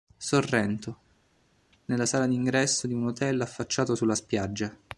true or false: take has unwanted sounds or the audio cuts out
false